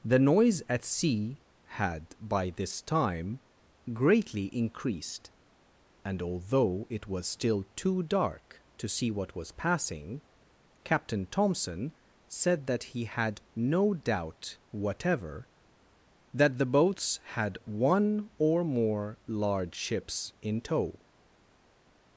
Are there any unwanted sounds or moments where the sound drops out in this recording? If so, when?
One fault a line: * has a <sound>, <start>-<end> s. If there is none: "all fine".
all fine